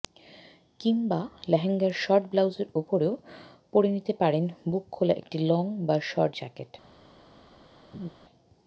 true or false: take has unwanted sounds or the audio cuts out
true